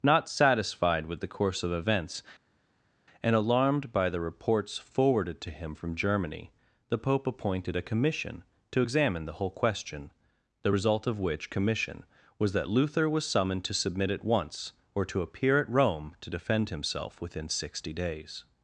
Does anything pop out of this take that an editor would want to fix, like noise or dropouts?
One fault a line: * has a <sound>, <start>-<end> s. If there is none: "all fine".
all fine